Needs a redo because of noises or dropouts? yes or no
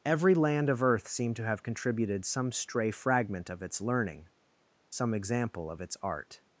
no